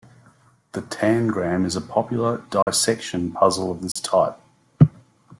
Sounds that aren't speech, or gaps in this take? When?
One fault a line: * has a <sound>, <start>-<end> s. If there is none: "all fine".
* has a dropout, 2.6-2.7 s
* has a dropout, 3.9-4.0 s